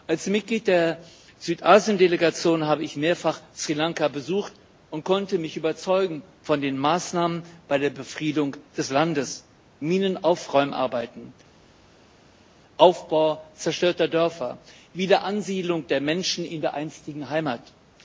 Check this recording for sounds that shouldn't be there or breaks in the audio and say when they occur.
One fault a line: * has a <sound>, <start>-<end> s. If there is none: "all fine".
all fine